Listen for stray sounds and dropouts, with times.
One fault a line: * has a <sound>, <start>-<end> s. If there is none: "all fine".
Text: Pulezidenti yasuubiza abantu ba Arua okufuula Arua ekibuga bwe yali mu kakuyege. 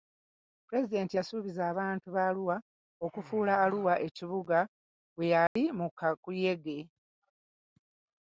* has a dropout, 5.5-5.6 s